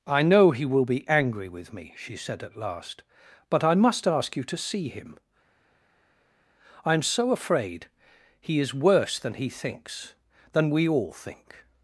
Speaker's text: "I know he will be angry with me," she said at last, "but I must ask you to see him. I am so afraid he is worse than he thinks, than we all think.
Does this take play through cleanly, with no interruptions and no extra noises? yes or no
yes